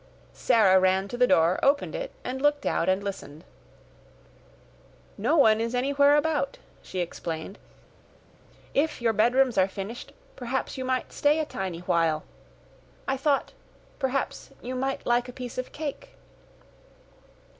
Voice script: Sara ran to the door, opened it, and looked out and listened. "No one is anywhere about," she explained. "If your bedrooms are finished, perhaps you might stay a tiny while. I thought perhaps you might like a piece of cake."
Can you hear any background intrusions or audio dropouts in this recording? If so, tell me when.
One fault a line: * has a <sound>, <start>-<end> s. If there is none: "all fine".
all fine